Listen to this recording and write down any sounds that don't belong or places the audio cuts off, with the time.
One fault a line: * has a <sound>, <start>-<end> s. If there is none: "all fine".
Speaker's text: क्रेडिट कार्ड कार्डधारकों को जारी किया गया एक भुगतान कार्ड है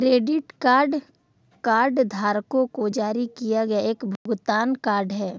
* has a dropout, 4.2-4.3 s